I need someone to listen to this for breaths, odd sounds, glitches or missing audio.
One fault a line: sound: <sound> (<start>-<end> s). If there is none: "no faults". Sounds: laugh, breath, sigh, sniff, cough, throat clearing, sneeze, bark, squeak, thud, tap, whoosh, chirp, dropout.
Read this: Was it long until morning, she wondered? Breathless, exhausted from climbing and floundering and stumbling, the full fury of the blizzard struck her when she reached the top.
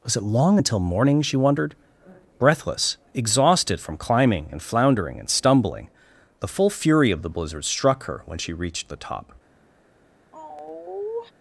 sound: sigh (10.3-11.3 s)